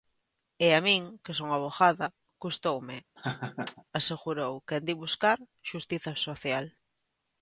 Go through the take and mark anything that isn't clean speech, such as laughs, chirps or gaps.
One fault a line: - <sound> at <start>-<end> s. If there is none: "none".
- laugh at 3.2-3.8 s